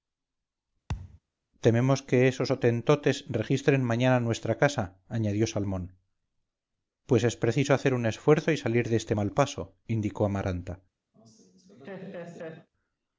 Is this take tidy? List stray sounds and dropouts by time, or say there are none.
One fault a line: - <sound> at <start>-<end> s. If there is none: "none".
- thud at 0.9-1.2 s
- laugh at 11.1-12.7 s